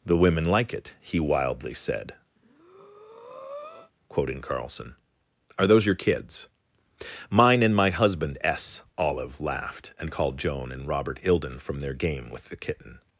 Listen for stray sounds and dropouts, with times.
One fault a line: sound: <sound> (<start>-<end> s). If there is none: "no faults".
sound: breath (2.4-3.9 s)